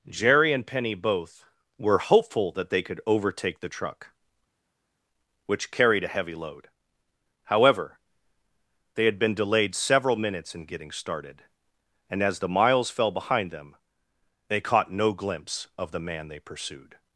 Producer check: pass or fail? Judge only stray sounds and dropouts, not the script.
pass